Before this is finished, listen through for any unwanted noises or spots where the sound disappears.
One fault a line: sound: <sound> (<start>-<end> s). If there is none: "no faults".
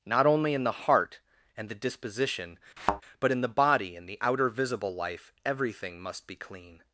sound: thud (2.8-3.0 s)